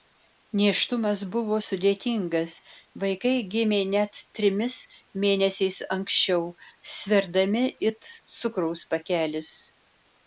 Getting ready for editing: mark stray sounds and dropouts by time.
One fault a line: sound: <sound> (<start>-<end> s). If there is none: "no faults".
no faults